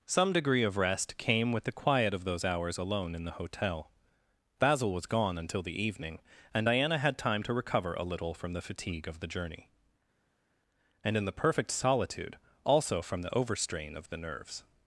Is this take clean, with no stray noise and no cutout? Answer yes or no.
yes